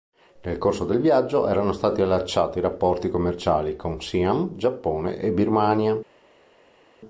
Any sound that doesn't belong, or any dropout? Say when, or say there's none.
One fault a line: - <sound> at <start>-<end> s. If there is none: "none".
none